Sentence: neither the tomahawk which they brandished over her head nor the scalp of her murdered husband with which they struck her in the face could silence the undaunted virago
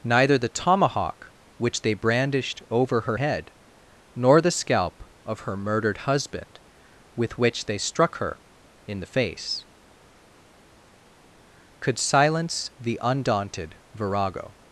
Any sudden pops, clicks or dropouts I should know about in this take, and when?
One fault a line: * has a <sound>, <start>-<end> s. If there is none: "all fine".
all fine